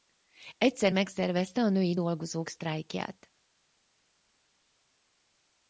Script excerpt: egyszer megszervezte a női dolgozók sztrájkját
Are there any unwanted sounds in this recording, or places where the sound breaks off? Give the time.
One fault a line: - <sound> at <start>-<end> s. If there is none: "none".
none